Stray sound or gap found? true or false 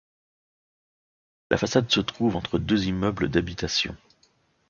false